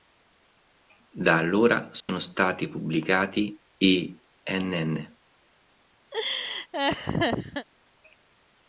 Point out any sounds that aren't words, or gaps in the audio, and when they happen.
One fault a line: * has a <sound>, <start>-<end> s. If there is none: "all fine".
* has a dropout, 2.0-2.1 s
* has a laugh, 6.1-7.7 s